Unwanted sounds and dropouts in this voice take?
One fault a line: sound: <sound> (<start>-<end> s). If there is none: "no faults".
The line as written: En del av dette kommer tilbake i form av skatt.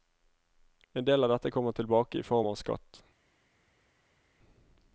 no faults